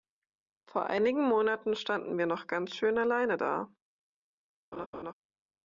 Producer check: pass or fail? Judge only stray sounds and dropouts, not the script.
fail